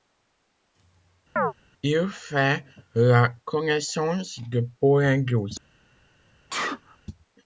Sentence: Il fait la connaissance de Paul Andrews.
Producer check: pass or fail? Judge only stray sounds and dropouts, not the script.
fail